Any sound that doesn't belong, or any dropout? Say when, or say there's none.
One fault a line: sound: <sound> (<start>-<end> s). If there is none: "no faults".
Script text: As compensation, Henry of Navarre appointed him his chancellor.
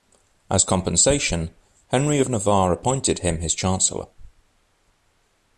no faults